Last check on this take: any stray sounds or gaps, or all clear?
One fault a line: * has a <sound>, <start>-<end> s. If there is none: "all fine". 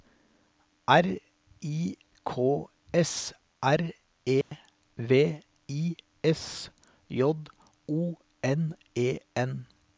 * has a dropout, 4.4-4.5 s